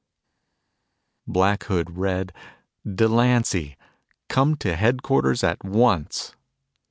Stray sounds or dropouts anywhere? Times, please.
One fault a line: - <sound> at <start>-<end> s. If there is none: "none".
none